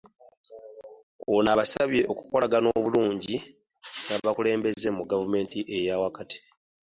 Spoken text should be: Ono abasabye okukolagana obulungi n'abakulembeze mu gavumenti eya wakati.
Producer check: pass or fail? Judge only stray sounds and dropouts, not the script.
fail